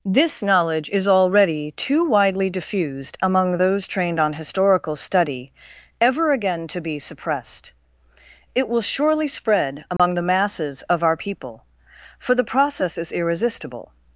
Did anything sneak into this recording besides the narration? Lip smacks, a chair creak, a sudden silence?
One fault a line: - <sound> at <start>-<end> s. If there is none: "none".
- dropout at 10.0-10.0 s